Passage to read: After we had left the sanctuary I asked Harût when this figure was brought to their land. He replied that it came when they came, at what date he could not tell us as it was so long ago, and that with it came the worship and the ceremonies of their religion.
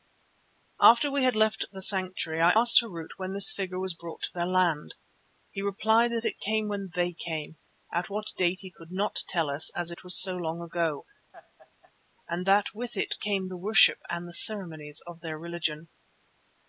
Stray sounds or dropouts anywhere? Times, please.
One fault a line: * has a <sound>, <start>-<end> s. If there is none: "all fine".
* has a laugh, 11.3-11.9 s